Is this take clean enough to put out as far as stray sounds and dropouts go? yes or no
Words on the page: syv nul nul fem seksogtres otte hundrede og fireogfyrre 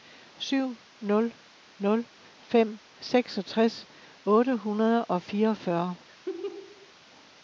no